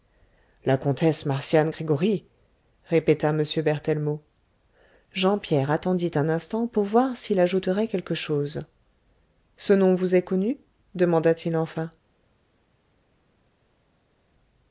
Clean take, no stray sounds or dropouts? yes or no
yes